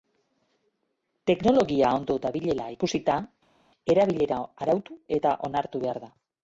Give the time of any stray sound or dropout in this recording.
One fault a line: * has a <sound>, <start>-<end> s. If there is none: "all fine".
all fine